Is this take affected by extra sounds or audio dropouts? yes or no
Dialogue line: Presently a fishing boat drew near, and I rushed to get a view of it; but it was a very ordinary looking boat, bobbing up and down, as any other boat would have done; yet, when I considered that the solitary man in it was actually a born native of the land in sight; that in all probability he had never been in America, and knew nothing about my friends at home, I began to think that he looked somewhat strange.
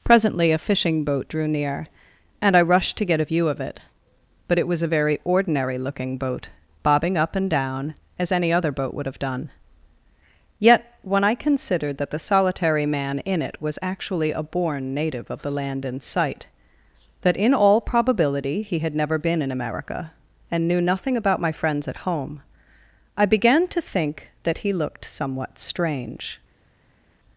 no